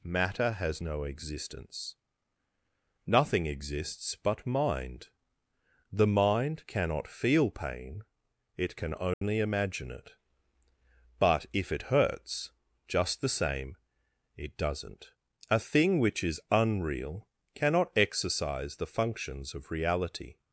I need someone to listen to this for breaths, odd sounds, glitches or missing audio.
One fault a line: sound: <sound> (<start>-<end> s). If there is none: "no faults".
sound: dropout (9.1-9.2 s)